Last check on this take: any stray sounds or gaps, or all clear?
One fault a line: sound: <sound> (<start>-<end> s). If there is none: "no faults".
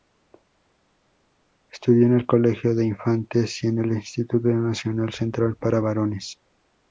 no faults